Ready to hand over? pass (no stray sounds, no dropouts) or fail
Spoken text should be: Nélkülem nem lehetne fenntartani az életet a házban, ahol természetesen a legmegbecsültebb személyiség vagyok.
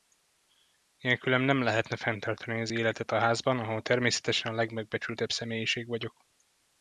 pass